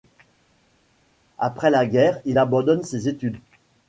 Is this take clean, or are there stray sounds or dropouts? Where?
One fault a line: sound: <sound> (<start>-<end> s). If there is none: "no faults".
no faults